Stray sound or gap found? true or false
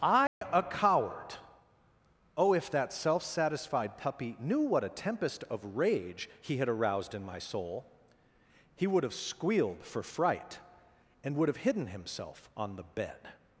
true